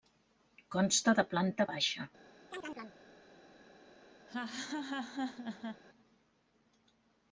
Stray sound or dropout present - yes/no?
yes